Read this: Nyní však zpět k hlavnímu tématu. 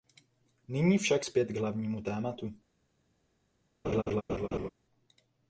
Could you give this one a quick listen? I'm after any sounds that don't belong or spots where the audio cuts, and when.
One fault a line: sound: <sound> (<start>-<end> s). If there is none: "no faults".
sound: laugh (3.8-4.7 s)